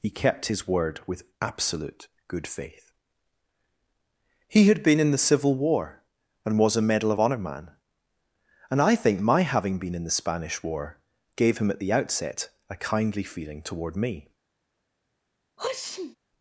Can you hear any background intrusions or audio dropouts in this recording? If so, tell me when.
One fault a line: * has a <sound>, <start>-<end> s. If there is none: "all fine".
* has a sneeze, 15.6-16.2 s